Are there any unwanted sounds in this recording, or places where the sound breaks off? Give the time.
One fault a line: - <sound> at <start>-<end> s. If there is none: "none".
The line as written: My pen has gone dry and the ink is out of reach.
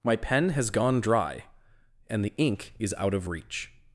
none